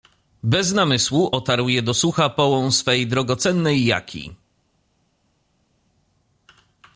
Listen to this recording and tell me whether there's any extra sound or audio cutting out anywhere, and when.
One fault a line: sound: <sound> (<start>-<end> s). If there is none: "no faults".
no faults